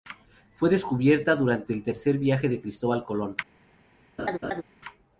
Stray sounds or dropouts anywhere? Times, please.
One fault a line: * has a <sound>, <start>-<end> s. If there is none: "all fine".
* has a laugh, 4.2-4.6 s